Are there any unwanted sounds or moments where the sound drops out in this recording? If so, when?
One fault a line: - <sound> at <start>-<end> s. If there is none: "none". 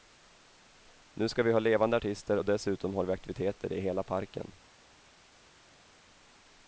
none